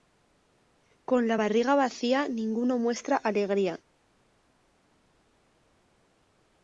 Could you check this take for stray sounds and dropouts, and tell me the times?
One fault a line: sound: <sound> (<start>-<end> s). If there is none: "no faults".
no faults